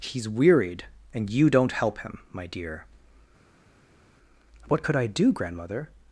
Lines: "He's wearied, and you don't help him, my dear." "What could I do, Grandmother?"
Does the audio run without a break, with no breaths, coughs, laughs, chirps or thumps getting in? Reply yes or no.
yes